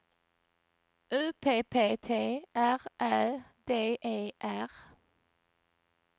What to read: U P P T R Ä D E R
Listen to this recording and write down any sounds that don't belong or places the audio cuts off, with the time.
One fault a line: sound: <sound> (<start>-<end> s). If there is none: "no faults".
no faults